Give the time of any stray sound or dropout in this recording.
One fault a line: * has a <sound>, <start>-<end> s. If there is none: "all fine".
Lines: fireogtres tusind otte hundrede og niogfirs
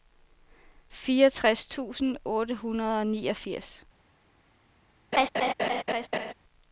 * has a laugh, 5.1-6.3 s